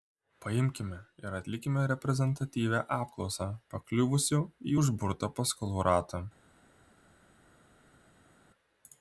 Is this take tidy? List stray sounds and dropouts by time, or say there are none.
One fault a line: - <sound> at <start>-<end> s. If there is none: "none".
none